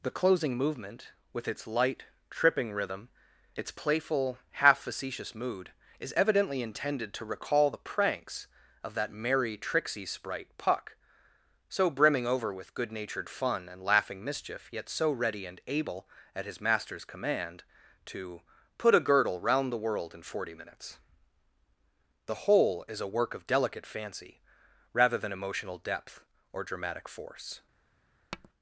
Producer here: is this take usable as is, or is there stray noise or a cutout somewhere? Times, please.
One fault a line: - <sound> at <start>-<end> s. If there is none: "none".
- tap at 28.3-28.5 s